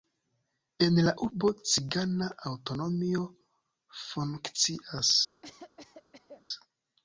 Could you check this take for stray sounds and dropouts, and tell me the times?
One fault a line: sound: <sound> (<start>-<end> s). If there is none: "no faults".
sound: cough (5.4-6.5 s)